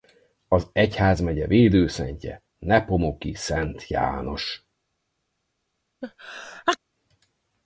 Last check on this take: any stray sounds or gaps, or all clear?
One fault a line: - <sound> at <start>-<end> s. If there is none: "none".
- sneeze at 6.0-6.8 s